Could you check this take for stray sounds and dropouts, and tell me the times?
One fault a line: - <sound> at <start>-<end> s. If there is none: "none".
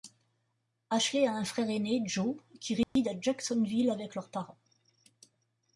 - dropout at 2.8-3.0 s